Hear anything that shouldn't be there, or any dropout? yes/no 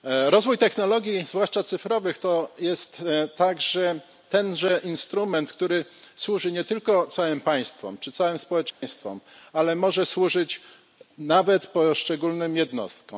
yes